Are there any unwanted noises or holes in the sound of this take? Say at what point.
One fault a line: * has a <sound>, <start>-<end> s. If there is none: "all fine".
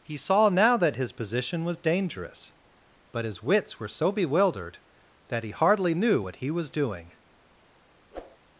* has a whoosh, 8.1-8.4 s